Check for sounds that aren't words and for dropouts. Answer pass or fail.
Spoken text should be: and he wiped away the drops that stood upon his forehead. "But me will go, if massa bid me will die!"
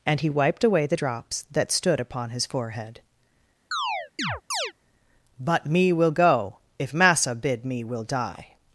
fail